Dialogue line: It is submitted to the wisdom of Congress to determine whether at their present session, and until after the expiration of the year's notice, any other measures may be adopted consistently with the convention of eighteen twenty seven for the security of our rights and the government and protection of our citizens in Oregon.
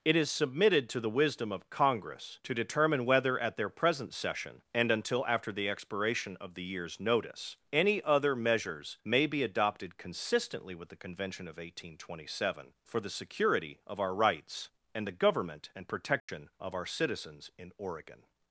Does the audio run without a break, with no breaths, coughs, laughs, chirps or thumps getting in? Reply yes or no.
no